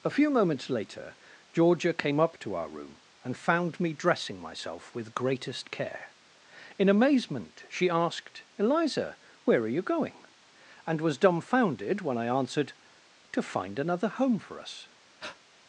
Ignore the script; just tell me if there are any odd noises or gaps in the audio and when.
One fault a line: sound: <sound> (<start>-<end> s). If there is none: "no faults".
sound: breath (15.2-15.4 s)